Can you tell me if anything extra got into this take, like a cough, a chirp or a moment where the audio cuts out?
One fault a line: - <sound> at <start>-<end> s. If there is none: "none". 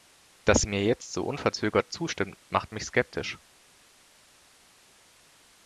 none